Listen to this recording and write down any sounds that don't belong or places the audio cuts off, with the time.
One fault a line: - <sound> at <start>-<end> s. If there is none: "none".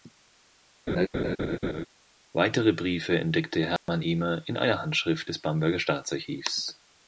- laugh at 0.9-1.9 s
- dropout at 3.8-3.9 s